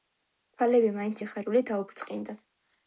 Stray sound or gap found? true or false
false